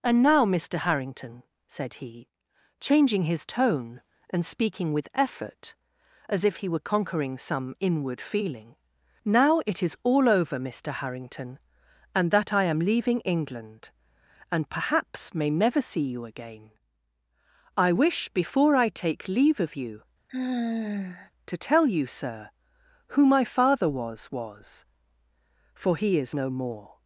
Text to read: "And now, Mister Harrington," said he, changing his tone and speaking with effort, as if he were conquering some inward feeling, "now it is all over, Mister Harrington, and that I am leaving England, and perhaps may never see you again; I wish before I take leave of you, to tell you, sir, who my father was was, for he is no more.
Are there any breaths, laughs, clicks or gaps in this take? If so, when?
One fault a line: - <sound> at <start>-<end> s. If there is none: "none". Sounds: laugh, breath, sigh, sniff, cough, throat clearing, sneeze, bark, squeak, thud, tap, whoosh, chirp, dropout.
- sigh at 20.3-21.3 s